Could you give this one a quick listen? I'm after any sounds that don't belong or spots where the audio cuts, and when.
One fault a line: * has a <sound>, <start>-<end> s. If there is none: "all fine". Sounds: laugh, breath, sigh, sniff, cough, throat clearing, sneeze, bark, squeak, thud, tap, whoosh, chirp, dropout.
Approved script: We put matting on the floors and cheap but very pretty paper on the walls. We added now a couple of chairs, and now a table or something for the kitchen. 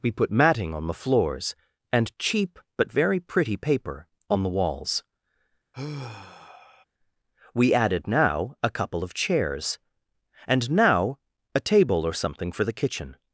* has a sigh, 5.7-6.8 s